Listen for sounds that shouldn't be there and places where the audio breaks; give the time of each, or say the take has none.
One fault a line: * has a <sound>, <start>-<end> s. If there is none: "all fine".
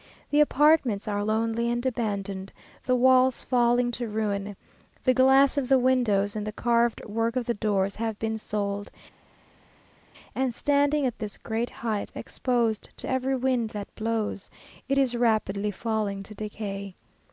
all fine